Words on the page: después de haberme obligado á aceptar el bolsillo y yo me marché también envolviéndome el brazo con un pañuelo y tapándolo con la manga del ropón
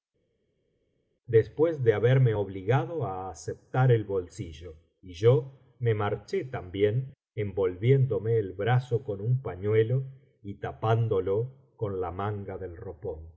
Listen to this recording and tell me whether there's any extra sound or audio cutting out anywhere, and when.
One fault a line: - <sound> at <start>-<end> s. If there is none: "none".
none